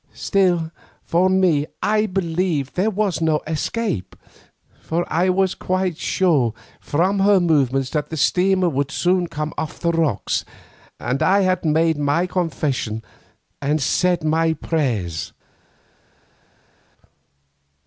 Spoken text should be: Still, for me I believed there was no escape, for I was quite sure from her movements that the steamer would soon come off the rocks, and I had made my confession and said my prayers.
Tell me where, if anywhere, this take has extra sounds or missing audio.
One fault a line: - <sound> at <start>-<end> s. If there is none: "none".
none